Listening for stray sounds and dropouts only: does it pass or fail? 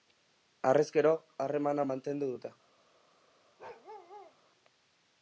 fail